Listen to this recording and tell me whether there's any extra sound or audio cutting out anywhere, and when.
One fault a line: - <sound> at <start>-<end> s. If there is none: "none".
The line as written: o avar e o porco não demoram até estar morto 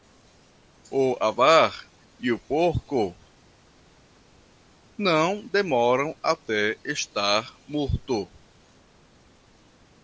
none